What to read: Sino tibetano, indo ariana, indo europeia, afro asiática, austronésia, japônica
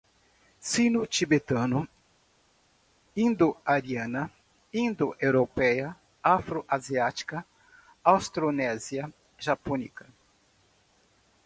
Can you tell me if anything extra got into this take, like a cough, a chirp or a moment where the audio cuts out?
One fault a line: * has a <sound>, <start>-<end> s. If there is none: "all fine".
all fine